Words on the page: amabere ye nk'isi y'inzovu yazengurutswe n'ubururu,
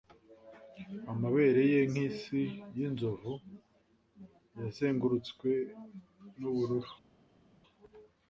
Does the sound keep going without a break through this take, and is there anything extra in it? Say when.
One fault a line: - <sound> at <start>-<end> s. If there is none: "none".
none